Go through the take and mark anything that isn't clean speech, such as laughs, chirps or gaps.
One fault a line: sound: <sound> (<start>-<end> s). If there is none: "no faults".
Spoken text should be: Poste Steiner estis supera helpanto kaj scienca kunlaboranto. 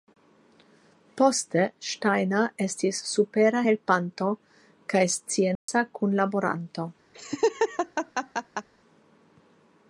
sound: dropout (5.6-5.7 s)
sound: laugh (7.1-8.7 s)